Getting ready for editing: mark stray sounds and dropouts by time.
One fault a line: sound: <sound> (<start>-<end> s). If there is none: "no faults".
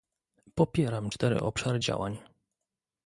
no faults